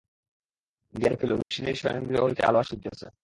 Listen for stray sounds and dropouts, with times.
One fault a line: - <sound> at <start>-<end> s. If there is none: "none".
- dropout at 1.4-1.5 s